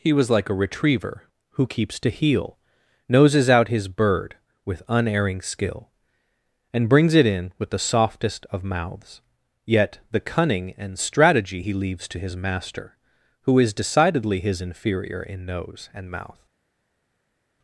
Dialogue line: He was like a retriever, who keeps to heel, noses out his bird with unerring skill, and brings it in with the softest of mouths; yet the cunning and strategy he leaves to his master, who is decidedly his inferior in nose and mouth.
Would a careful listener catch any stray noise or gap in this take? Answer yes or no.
no